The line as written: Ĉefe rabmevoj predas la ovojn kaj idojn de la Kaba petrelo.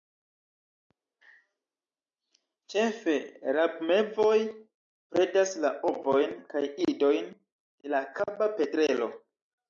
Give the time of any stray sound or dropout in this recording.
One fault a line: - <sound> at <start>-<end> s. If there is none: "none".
none